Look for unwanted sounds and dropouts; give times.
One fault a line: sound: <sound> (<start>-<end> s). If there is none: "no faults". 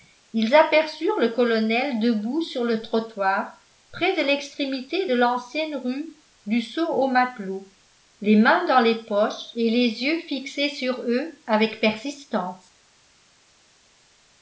no faults